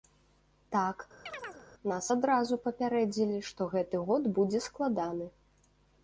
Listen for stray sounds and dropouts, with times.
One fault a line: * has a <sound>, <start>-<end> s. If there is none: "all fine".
* has a chirp, 1.3-1.6 s